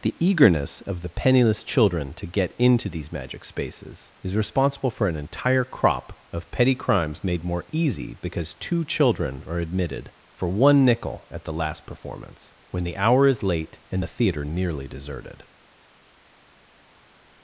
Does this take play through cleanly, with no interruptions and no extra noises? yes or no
yes